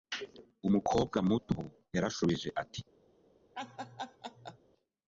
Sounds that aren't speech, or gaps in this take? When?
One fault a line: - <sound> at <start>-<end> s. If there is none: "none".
- laugh at 3.5-4.6 s